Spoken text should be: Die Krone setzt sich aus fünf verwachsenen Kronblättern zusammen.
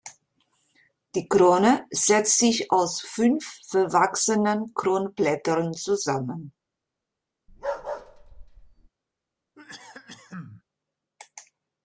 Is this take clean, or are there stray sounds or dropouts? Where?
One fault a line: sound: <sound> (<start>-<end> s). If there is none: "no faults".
sound: bark (7.5-8.9 s)
sound: cough (9.6-10.6 s)